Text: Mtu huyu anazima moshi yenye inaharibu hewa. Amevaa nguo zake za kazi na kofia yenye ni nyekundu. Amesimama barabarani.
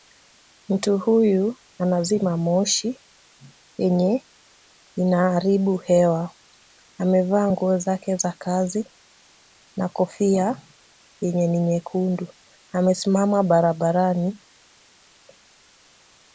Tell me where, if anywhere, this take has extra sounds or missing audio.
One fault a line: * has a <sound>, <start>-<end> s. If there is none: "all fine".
all fine